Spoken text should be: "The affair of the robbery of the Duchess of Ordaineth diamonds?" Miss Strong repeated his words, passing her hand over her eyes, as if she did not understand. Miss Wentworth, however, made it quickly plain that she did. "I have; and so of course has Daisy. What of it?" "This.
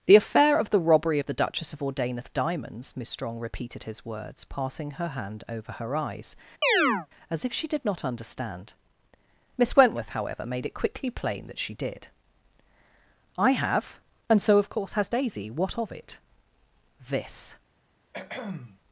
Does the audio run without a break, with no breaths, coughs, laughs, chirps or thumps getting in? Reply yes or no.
no